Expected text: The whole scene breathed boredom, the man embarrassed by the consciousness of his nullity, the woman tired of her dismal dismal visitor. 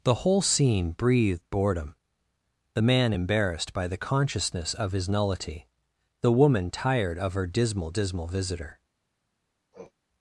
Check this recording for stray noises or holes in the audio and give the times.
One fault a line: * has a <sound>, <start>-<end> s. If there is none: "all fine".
* has a sniff, 9.7-9.9 s